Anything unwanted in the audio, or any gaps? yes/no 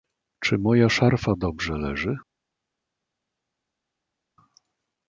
no